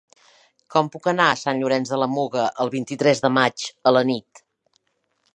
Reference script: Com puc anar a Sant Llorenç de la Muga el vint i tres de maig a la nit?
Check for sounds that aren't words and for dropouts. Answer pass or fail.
pass